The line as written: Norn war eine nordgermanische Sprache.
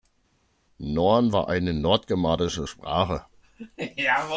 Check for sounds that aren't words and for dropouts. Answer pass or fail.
pass